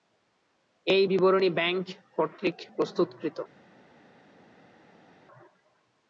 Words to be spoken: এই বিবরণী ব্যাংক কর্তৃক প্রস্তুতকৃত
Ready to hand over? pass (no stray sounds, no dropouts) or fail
pass